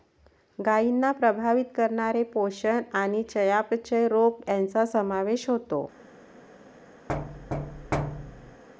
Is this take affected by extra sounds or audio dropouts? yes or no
yes